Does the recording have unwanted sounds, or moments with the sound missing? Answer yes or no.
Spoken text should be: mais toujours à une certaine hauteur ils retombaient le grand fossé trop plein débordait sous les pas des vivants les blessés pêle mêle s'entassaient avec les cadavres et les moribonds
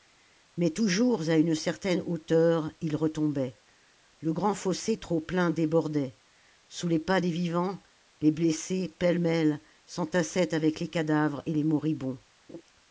yes